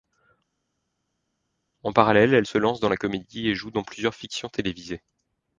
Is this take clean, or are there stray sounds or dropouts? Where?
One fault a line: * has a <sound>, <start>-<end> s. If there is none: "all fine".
all fine